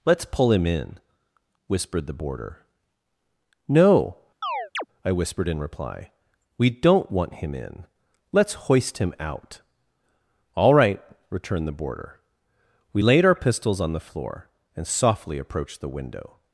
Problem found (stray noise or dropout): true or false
true